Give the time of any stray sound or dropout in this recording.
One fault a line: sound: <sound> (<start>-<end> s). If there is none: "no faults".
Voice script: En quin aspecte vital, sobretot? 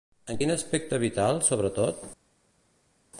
no faults